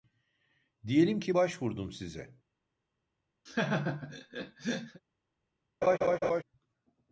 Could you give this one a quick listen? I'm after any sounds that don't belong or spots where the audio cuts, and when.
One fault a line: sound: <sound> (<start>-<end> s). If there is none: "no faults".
sound: laugh (3.5-5.0 s)
sound: laugh (5.8-6.4 s)